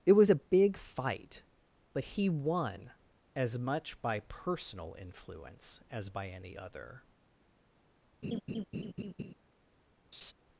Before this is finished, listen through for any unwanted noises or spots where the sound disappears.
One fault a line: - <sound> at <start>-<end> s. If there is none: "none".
- laugh at 8.2-9.3 s
- laugh at 10.1-10.3 s